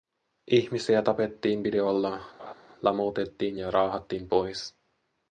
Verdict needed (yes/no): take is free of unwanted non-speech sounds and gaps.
no